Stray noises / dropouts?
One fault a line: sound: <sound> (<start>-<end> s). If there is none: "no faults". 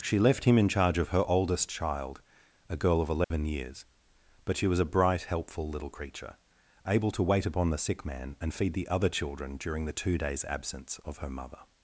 sound: dropout (3.2-3.3 s)